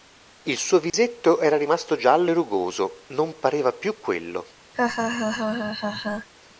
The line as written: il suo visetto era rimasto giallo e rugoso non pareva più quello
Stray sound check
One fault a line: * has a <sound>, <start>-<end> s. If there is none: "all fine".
* has a dropout, 0.9-0.9 s
* has a laugh, 4.7-6.3 s